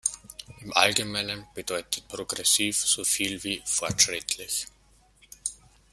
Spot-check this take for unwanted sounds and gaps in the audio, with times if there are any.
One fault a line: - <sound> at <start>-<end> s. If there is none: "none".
none